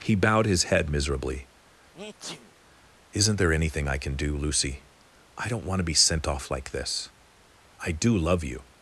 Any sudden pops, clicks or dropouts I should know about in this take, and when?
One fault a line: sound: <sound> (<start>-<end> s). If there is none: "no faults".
sound: sneeze (1.9-2.5 s)